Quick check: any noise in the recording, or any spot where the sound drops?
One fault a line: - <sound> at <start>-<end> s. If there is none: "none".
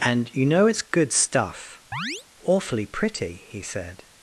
- chirp at 1.9-2.2 s